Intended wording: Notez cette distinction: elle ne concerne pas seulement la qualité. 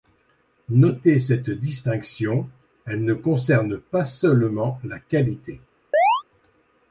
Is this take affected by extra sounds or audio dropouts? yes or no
yes